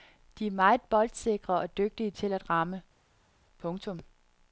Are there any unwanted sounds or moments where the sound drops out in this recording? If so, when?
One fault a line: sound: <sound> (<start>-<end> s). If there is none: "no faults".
no faults